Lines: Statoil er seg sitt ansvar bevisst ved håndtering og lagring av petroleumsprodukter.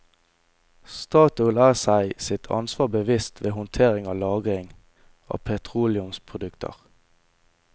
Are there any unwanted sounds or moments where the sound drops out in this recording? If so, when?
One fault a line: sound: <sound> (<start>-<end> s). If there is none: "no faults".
no faults